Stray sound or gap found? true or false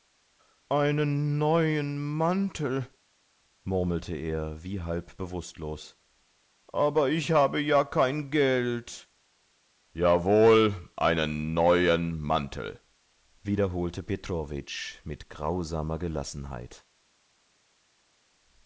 false